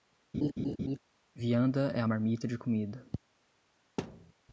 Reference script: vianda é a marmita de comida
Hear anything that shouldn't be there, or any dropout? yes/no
yes